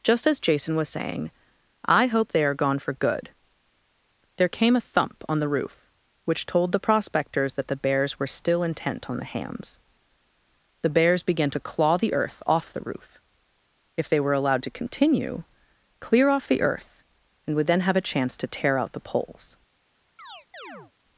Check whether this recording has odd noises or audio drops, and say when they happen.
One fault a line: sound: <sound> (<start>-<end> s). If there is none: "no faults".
sound: chirp (20.2-20.9 s)